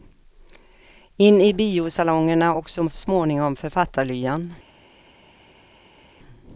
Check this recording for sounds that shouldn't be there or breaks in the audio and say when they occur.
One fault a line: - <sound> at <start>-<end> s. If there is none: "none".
none